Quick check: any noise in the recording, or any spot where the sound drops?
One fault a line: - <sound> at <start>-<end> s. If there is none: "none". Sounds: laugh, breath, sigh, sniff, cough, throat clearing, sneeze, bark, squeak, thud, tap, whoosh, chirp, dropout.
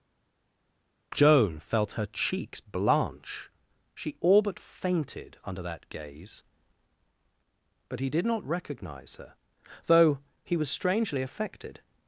none